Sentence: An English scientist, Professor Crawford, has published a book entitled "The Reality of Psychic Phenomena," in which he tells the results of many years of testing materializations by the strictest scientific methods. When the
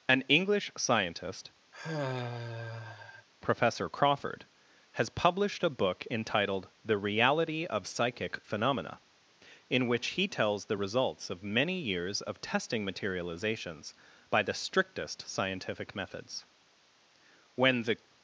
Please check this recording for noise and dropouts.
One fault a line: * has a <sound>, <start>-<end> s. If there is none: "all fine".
* has a sigh, 1.7-3.3 s